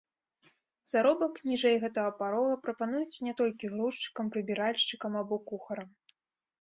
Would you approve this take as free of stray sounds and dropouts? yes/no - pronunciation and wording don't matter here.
yes